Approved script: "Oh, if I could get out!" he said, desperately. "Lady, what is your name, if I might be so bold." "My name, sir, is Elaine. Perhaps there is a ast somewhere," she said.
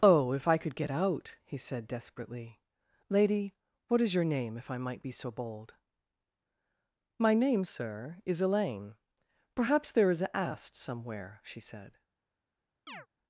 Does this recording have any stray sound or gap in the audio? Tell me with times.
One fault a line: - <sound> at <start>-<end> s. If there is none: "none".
- chirp at 12.9-13.1 s